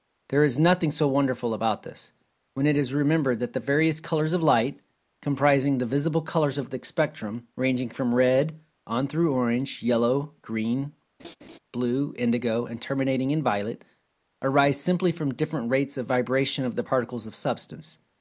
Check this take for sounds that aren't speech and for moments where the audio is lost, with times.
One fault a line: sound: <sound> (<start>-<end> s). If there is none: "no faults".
sound: laugh (11.2-11.6 s)